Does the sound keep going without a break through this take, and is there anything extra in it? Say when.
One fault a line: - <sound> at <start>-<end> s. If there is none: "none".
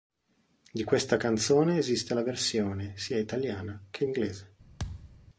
- thud at 4.8-5.3 s